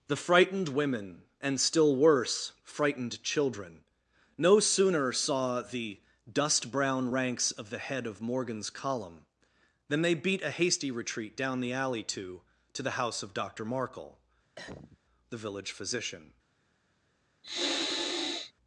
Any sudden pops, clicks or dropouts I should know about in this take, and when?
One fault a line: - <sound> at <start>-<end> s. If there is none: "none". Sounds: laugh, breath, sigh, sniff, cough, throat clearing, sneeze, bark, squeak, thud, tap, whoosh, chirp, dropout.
- cough at 14.6-15.0 s
- sniff at 17.4-18.5 s